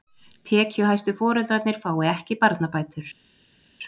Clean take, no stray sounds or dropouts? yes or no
yes